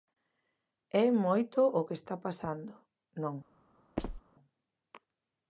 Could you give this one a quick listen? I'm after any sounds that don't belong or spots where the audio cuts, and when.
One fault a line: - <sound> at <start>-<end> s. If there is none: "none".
- squeak at 4.0-4.2 s